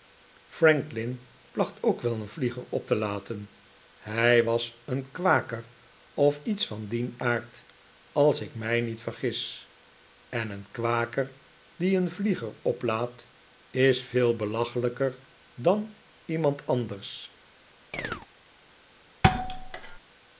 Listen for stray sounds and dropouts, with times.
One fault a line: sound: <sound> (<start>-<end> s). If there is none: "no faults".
sound: chirp (17.9-18.3 s)
sound: thud (19.2-20.0 s)